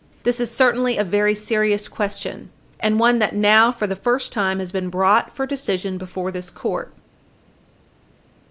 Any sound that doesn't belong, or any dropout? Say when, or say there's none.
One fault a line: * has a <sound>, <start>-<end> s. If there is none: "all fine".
all fine